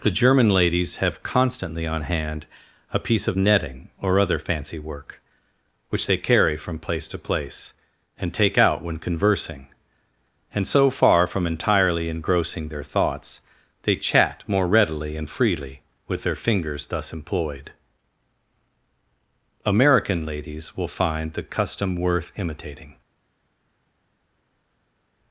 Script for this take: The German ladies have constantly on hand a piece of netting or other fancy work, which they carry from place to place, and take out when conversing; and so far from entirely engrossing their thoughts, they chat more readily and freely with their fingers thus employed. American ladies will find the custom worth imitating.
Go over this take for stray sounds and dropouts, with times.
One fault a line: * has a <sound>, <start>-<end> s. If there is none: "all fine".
all fine